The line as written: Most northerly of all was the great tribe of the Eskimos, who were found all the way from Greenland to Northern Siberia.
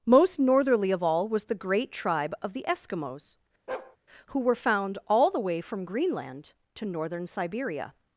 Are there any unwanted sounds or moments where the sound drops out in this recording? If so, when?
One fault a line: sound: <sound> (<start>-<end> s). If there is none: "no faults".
sound: bark (3.7-4.0 s)